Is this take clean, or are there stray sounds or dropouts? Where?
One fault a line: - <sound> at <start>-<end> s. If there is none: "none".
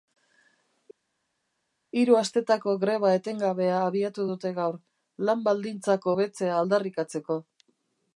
none